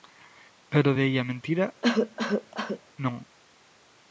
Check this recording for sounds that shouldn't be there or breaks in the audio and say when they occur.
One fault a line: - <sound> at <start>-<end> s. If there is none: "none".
- cough at 1.8-2.8 s